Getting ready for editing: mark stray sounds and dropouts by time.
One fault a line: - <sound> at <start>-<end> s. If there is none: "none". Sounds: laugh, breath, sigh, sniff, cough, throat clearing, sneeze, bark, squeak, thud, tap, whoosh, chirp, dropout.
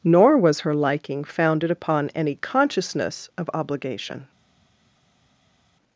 none